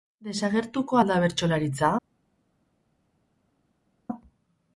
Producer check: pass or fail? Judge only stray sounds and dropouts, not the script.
pass